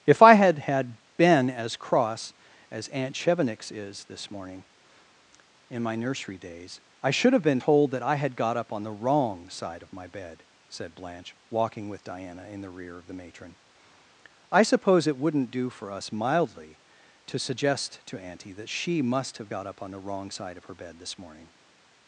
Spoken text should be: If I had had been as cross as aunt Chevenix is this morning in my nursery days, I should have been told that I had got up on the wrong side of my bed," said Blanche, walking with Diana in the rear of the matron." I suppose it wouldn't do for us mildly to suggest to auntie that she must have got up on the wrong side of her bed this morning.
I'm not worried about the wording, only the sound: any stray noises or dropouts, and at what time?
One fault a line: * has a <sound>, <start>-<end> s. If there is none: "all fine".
all fine